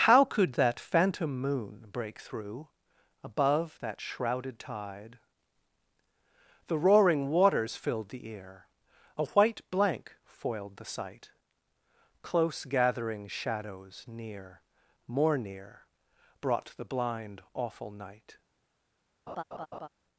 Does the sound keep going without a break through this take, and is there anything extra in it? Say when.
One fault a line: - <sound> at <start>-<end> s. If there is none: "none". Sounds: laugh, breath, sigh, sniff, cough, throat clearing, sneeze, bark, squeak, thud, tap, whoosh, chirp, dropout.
- laugh at 19.3-19.9 s